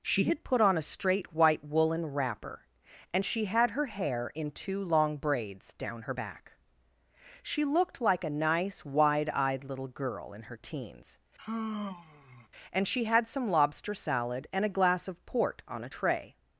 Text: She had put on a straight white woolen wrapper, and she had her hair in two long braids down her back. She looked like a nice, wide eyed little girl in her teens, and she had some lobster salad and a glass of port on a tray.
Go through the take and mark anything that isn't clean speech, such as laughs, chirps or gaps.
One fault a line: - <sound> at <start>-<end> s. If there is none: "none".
- sigh at 11.4-12.5 s